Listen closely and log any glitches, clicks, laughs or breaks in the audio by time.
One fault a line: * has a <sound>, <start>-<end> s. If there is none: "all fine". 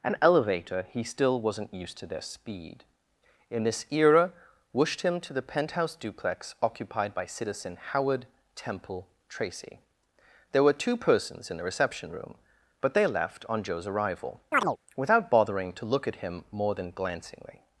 * has a chirp, 14.5-14.8 s